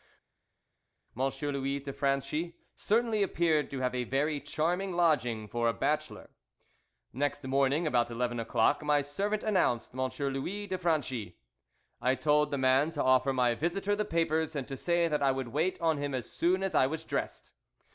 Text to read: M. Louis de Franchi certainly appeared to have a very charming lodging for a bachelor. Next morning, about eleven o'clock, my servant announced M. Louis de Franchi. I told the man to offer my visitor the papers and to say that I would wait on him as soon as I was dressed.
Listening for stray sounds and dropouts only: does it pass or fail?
pass